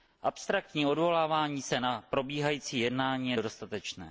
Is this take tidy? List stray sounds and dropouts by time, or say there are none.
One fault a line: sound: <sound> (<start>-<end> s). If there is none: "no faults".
no faults